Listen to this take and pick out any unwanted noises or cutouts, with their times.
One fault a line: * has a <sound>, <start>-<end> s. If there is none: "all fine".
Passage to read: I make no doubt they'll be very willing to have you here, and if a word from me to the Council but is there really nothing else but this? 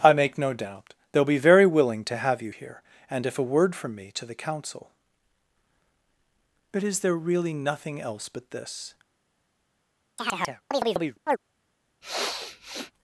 * has a chirp, 10.2-11.4 s
* has a sniff, 12.0-12.9 s